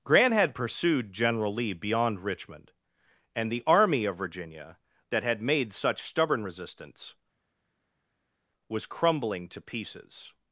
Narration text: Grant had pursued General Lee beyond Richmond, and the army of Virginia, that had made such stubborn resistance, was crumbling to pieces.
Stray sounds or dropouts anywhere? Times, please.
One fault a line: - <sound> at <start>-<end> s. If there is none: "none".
none